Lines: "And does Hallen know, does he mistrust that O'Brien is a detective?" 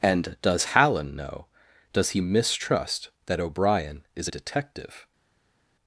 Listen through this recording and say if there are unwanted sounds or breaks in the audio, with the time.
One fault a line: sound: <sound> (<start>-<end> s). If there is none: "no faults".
no faults